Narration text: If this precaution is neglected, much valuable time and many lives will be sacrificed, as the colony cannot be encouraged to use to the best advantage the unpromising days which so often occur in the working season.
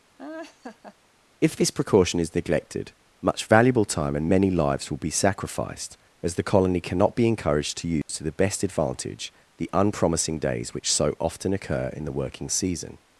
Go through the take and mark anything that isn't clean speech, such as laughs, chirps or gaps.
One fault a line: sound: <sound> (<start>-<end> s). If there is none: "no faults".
sound: laugh (0.2-1.0 s)
sound: dropout (8.0-8.1 s)